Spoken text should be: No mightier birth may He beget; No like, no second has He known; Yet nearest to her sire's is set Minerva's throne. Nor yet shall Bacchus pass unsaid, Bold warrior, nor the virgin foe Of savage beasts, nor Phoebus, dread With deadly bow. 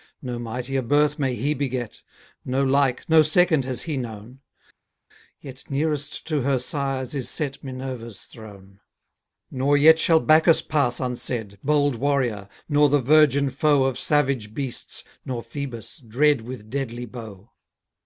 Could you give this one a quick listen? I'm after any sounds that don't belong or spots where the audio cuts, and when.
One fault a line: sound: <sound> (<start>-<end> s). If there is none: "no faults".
no faults